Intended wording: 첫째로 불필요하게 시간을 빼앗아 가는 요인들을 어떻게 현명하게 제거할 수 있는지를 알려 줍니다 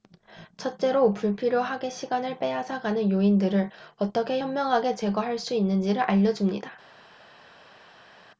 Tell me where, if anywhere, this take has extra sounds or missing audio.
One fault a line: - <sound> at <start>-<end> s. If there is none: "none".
none